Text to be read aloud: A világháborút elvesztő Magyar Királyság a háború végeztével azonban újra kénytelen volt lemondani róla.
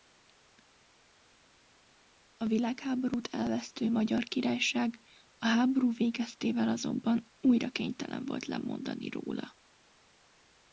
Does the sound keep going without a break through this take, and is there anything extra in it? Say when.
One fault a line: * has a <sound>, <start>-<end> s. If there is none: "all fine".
all fine